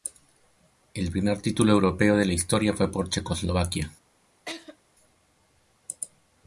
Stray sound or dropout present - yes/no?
yes